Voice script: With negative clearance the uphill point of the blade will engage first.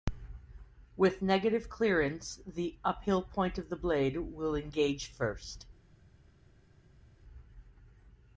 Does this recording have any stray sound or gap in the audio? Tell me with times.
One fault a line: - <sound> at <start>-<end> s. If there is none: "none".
none